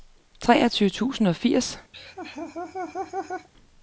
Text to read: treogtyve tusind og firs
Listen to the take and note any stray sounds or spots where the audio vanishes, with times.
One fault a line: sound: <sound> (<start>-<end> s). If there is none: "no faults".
sound: laugh (1.9-3.5 s)